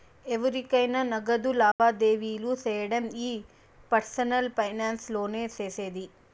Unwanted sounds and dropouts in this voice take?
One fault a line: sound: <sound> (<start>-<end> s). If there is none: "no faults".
sound: dropout (1.7-1.8 s)